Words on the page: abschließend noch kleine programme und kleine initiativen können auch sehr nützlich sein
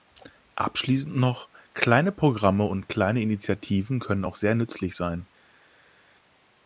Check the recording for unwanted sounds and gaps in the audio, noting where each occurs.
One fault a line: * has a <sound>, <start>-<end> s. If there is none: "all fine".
all fine